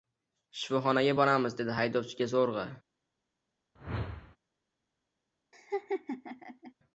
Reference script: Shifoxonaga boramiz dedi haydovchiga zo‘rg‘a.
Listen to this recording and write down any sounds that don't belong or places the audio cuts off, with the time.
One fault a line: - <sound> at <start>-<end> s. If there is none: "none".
- whoosh at 3.8-4.4 s
- laugh at 5.5-6.7 s